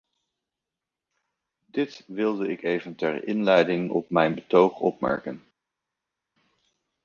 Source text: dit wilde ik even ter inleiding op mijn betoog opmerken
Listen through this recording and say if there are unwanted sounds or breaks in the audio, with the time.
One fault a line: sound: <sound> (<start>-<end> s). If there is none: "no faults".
no faults